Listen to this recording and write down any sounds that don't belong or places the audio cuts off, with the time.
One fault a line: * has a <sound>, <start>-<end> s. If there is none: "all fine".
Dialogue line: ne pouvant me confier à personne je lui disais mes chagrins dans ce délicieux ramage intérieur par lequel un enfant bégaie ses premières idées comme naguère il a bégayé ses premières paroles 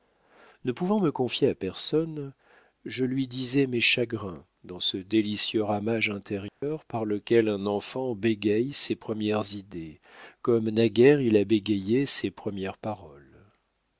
* has a dropout, 6.5-6.6 s